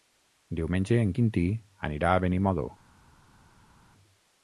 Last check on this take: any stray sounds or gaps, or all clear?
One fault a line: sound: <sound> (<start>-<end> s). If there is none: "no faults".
no faults